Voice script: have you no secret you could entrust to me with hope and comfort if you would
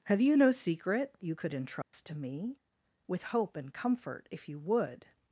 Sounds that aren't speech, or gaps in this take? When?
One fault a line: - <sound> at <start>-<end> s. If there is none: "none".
- dropout at 1.8-1.9 s